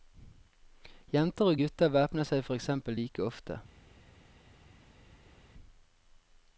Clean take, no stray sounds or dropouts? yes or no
yes